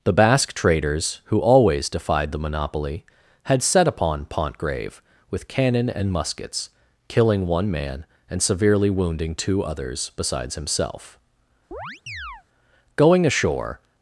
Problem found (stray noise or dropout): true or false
true